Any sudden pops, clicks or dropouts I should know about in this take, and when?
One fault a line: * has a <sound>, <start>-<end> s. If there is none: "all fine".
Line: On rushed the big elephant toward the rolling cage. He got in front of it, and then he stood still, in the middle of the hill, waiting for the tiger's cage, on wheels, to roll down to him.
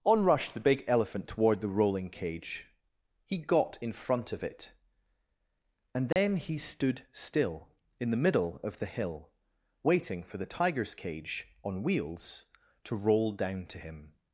* has a dropout, 6.1-6.2 s